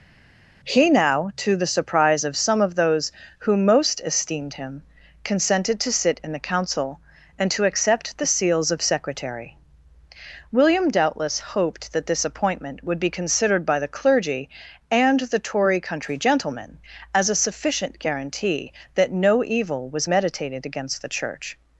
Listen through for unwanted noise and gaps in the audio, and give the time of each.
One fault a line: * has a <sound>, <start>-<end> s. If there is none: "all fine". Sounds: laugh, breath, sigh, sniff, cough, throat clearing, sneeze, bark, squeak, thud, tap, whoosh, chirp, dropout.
all fine